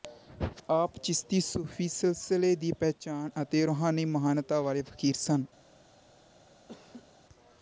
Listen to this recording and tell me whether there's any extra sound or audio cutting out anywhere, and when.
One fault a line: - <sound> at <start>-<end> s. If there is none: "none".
- laugh at 6.7-7.1 s